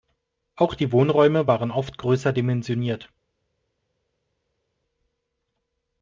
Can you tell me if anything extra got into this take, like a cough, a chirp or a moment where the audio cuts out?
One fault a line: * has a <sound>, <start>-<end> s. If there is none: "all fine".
all fine